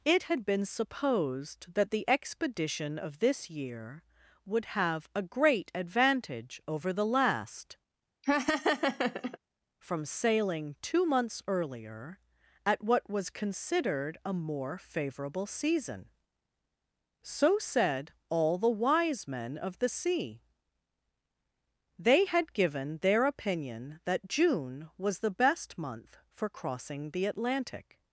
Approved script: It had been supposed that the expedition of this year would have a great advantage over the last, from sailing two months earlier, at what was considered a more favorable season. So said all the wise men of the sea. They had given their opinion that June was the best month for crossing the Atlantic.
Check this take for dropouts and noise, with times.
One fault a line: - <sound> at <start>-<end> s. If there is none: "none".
- laugh at 8.2-9.4 s